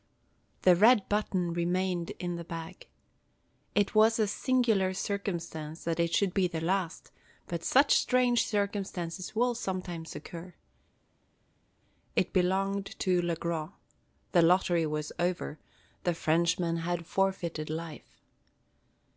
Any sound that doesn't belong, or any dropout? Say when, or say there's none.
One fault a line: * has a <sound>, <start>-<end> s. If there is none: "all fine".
all fine